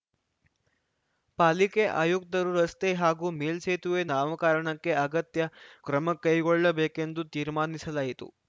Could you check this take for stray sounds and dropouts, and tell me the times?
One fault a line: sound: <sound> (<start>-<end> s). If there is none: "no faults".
no faults